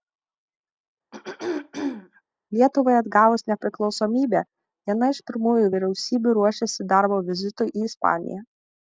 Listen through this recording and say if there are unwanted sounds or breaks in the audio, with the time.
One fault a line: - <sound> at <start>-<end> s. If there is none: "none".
- throat clearing at 1.1-2.2 s